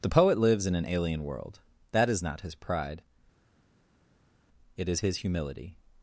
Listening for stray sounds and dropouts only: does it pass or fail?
pass